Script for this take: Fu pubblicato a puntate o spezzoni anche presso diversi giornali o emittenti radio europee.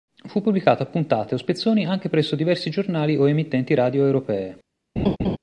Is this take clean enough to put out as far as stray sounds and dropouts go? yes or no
no